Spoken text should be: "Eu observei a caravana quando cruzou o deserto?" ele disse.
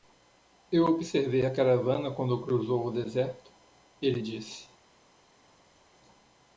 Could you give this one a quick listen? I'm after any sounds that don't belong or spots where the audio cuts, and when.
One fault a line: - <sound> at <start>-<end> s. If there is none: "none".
none